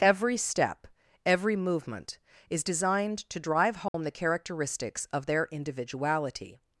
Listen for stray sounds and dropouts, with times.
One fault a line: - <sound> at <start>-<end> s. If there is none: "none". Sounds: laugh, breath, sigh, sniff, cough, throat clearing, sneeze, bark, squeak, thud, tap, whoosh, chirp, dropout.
- dropout at 3.9-3.9 s